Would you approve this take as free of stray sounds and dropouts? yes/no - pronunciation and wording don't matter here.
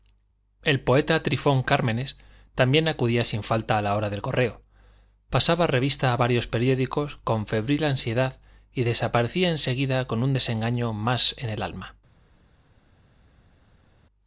yes